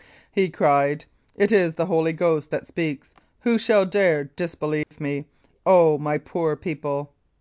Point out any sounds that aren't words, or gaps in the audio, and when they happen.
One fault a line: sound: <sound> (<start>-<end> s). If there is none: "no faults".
sound: dropout (4.8-4.9 s)